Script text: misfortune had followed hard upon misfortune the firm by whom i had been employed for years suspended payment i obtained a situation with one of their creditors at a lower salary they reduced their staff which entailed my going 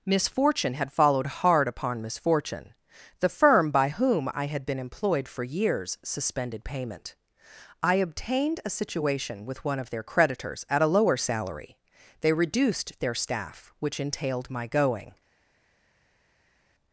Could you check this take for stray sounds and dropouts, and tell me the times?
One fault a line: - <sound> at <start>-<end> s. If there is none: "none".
none